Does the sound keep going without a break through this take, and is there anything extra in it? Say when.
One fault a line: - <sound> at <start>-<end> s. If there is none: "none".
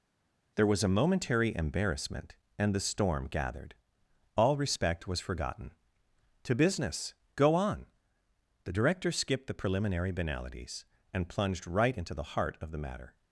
none